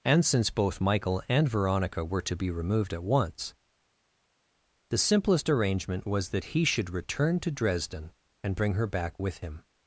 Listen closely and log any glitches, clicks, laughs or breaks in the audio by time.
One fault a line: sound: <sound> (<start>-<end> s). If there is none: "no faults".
no faults